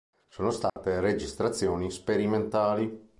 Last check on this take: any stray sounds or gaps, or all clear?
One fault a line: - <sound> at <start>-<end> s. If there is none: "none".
- dropout at 0.7-0.8 s